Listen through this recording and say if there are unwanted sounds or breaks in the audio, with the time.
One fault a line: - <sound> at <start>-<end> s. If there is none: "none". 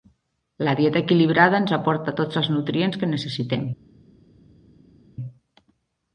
none